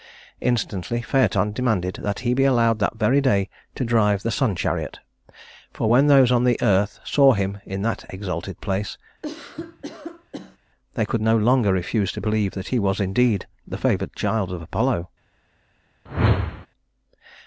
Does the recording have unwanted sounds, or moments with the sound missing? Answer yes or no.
yes